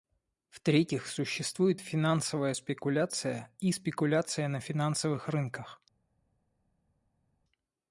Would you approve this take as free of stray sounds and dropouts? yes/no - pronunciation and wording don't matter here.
yes